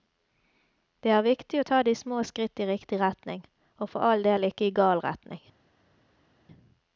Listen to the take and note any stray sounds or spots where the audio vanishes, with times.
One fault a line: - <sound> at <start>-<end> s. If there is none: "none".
none